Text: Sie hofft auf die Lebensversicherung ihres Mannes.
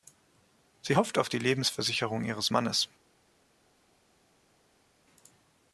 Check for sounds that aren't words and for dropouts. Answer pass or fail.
pass